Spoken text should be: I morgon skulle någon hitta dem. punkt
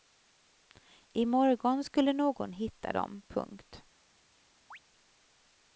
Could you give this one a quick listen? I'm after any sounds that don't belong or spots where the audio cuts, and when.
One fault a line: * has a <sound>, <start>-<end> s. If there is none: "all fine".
* has a chirp, 4.7-4.8 s